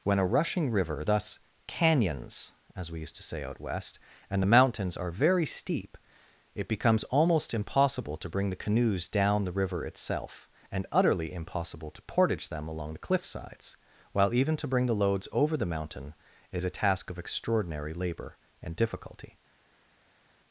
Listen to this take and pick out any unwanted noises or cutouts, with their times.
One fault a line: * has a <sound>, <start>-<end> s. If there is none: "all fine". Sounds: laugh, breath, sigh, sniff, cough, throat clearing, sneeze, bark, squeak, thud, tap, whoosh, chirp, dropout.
all fine